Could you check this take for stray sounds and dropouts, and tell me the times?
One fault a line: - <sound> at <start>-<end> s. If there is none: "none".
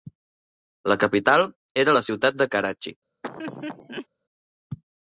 - laugh at 3.2-4.1 s